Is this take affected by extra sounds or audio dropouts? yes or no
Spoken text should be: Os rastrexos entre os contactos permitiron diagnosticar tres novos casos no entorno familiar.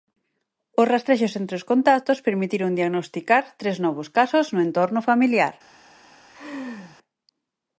yes